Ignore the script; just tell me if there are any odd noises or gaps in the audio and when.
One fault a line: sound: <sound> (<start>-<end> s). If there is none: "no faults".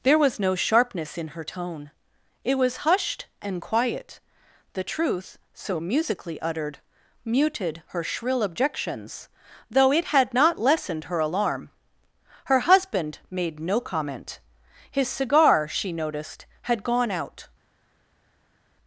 no faults